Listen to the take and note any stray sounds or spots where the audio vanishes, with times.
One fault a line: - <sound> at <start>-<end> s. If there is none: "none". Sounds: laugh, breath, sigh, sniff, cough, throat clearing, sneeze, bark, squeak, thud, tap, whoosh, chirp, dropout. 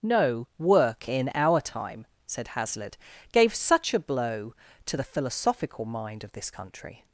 none